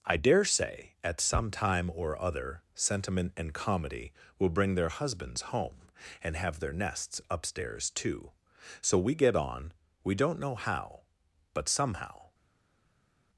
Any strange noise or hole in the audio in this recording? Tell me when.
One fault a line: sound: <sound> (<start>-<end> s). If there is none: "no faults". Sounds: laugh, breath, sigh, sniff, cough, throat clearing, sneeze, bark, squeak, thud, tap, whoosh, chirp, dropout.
no faults